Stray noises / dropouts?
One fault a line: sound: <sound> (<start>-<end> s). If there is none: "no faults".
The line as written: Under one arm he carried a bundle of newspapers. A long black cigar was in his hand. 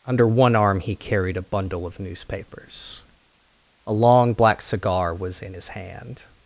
no faults